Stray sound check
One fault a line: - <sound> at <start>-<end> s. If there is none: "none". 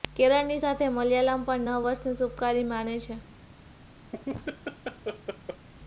- laugh at 4.1-5.7 s